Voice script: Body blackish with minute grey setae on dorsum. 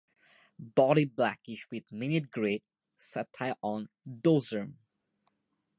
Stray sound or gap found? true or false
false